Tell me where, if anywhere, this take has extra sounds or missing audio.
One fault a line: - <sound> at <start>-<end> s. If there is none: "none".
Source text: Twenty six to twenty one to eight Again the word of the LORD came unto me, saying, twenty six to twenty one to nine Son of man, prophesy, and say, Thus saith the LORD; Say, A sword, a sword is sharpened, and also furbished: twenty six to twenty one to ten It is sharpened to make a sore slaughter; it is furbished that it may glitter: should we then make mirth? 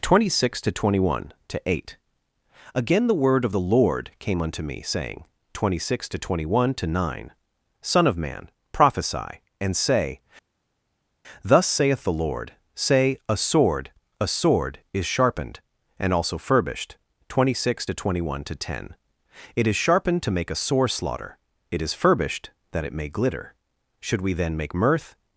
none